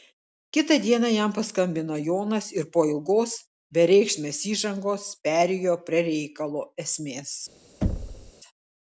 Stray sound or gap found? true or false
true